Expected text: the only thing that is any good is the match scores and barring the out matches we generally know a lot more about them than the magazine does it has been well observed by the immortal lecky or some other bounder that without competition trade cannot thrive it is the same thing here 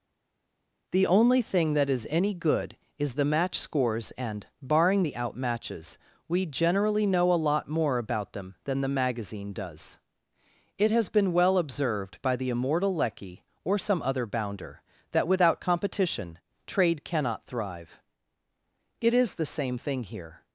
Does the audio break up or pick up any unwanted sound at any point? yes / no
no